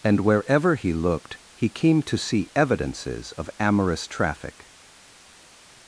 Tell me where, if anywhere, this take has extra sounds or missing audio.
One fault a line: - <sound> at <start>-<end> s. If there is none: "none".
none